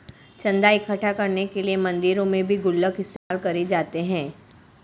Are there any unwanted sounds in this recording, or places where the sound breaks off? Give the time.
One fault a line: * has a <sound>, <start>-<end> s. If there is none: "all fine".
* has a dropout, 3.2-3.3 s